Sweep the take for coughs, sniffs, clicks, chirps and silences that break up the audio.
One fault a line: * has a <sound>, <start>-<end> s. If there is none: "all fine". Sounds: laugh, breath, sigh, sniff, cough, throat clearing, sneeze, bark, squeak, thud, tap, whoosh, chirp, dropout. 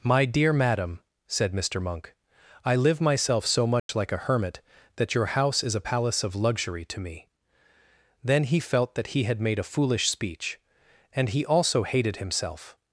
* has a dropout, 3.8-3.9 s